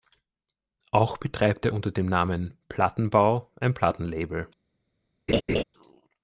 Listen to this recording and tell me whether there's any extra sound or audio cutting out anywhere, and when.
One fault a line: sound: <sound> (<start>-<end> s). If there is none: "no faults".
sound: laugh (5.3-5.6 s)